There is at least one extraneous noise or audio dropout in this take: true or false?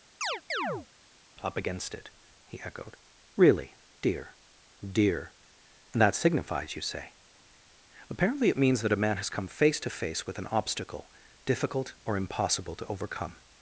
true